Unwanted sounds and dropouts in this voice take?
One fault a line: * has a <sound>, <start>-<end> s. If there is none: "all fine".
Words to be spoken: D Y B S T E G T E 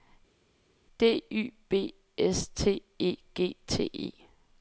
all fine